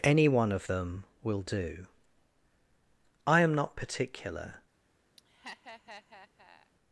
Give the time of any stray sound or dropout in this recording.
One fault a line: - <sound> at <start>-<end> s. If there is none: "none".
- laugh at 5.2-6.7 s